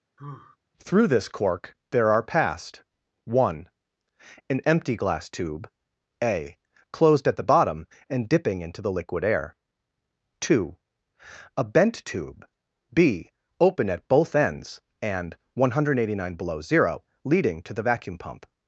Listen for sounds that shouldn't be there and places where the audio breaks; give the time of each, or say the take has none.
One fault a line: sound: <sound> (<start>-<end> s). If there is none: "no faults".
sound: sigh (0.2-0.6 s)